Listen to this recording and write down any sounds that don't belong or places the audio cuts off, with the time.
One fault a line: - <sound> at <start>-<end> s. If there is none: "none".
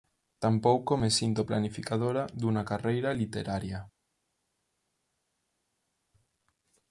none